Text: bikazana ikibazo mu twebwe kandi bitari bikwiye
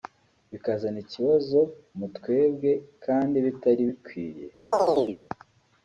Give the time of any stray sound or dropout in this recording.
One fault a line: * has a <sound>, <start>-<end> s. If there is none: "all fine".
* has a chirp, 4.7-5.2 s